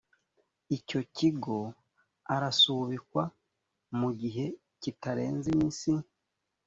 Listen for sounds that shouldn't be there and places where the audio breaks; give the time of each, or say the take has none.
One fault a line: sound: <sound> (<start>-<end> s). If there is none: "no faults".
no faults